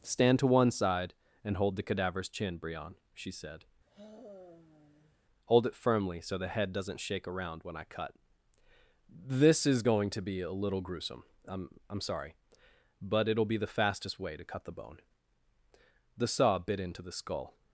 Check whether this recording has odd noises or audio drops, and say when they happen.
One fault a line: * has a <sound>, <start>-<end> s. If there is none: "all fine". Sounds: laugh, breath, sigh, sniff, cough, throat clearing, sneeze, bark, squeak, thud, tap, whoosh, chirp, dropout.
* has a sigh, 3.9-5.2 s